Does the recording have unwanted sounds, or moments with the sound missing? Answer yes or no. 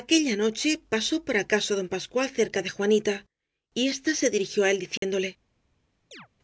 yes